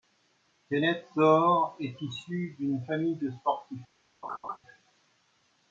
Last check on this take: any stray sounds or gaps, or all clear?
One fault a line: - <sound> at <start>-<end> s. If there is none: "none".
- laugh at 4.2-4.6 s